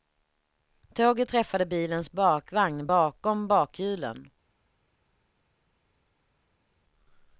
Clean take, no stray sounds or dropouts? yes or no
yes